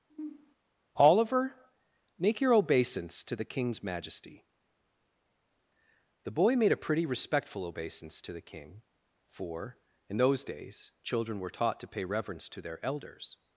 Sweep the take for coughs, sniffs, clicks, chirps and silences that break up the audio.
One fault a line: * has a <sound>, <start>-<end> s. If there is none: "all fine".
* has a sniff, 0.1-0.6 s